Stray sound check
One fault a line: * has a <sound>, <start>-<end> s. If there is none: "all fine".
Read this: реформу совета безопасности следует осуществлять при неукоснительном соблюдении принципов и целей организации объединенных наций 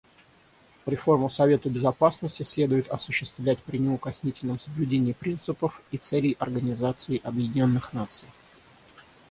all fine